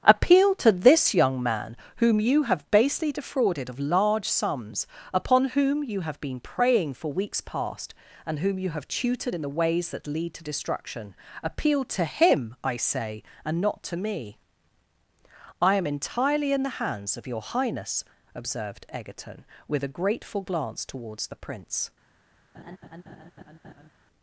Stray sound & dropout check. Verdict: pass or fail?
fail